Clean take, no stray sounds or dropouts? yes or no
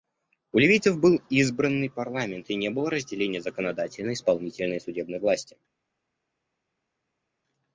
yes